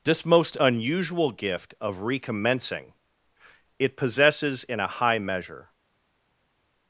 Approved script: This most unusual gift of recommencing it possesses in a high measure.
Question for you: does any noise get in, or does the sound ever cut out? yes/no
no